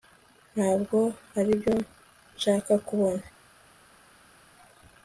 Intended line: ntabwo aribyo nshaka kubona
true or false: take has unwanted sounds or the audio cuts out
false